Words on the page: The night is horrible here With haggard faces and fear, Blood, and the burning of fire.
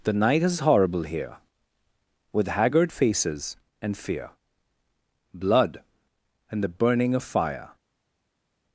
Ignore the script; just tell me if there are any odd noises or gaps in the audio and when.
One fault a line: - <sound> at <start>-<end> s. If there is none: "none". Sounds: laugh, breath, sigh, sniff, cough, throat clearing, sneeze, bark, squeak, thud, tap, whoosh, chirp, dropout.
none